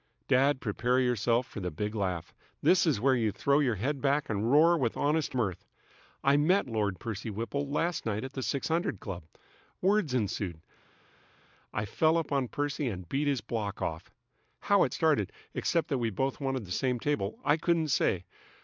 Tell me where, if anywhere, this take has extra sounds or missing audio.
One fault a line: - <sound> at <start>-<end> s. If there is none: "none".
none